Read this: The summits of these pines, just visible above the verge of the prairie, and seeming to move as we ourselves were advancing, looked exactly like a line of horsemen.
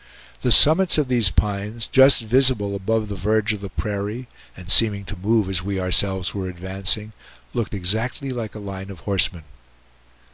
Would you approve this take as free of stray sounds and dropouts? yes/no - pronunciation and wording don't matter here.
yes